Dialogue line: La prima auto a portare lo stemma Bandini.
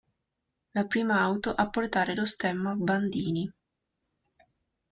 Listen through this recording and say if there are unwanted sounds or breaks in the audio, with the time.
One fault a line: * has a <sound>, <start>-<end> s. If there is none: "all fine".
all fine